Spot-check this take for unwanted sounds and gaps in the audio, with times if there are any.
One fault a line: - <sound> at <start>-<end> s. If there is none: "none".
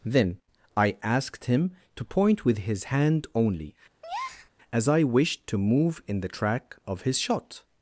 - breath at 4.0-4.5 s